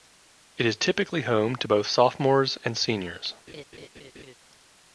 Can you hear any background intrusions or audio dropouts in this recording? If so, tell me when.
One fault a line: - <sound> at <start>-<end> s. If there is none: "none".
- laugh at 3.5-4.4 s